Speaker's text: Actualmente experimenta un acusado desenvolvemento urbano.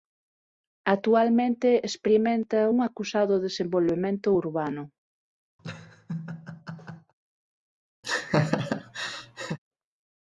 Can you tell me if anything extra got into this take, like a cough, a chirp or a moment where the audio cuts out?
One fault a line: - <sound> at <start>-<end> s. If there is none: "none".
- laugh at 5.6-7.1 s
- laugh at 8.0-9.6 s